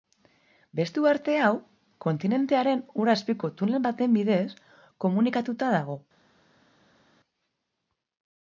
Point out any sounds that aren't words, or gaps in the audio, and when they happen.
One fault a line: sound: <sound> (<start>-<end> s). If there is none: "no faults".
no faults